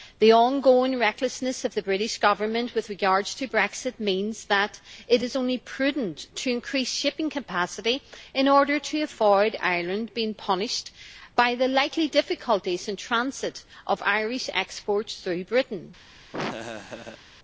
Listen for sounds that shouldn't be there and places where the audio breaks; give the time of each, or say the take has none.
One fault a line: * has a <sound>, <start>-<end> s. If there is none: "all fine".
* has a laugh, 16.3-17.2 s